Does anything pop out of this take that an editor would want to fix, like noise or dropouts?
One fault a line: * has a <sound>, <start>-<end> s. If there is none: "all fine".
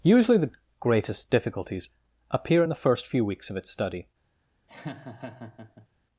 * has a laugh, 4.7-5.9 s